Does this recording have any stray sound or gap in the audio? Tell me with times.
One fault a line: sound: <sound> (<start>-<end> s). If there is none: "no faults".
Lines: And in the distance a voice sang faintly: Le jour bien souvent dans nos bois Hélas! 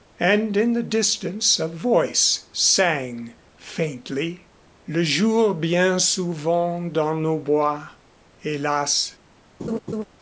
sound: laugh (9.6-10.1 s)